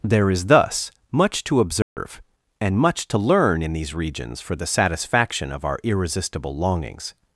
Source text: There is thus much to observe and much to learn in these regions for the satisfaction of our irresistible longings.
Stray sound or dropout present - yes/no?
yes